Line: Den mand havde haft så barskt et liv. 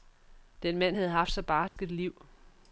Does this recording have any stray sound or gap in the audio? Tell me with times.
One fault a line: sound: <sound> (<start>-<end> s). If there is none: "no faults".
sound: dropout (1.7-1.8 s)